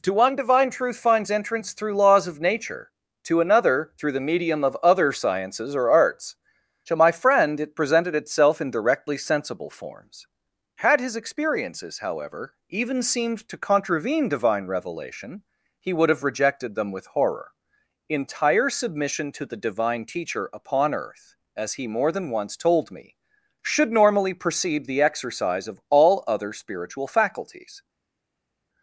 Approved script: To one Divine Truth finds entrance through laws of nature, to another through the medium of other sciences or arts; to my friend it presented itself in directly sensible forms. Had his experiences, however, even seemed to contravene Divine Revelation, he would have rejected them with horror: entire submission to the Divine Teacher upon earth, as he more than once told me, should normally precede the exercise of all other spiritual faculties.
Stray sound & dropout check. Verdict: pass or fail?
pass